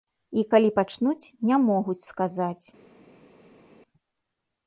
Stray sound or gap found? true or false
false